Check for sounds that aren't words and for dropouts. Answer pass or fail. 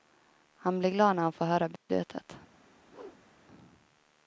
fail